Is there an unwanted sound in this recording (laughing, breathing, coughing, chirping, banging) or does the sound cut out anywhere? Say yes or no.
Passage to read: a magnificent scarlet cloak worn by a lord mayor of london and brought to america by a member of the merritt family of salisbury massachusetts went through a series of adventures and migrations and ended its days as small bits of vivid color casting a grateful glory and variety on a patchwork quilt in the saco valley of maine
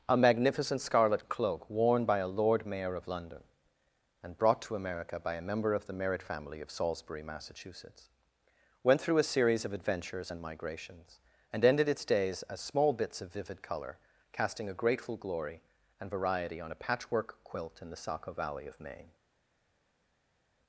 no